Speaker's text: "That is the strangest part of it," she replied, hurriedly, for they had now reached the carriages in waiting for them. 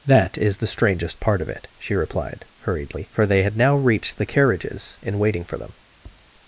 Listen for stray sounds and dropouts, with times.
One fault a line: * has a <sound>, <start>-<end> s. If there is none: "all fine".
* has a tap, 5.9-6.3 s